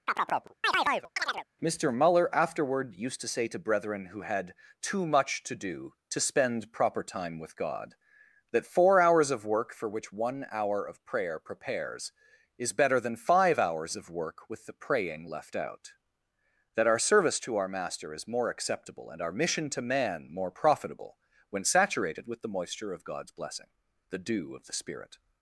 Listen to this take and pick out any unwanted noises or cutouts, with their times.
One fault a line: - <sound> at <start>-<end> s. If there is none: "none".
- chirp at 0.1-1.5 s